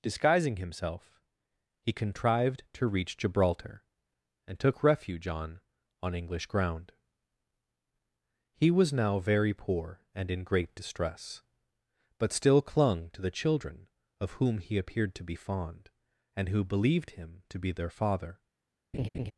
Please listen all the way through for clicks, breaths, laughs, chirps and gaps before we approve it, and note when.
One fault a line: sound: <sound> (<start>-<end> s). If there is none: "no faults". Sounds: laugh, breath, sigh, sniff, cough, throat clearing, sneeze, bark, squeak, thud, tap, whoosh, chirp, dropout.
sound: laugh (18.9-19.3 s)